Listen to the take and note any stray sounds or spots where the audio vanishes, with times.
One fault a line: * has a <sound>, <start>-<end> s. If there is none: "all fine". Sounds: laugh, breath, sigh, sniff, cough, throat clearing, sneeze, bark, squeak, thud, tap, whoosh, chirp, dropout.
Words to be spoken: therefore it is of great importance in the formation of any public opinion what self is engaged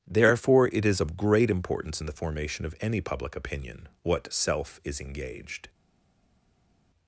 all fine